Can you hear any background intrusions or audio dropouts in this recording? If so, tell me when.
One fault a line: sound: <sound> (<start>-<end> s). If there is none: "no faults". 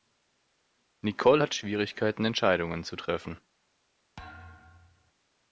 sound: thud (4.2-5.1 s)